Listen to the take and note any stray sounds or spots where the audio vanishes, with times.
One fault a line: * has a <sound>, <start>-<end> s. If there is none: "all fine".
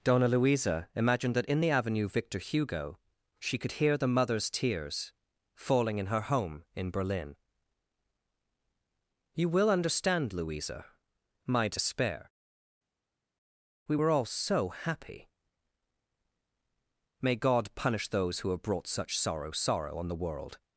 all fine